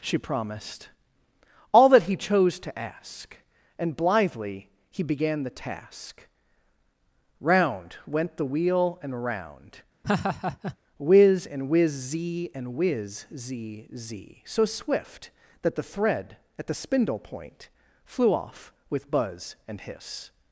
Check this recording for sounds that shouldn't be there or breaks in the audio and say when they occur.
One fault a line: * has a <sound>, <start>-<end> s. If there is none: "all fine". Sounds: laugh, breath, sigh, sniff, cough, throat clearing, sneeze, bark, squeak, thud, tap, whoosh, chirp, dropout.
* has a laugh, 10.0-10.8 s